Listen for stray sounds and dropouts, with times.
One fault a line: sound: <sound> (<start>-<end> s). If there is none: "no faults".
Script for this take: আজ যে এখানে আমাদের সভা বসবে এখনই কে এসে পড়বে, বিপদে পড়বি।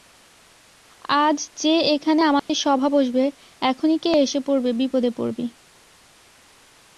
sound: dropout (2.4-2.5 s)